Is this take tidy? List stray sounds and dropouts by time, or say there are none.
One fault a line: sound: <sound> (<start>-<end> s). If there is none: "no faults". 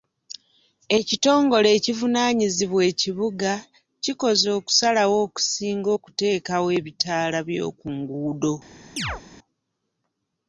sound: chirp (9.0-9.2 s)